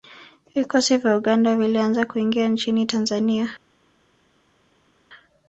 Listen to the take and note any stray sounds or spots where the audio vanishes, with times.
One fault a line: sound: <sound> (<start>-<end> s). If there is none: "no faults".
no faults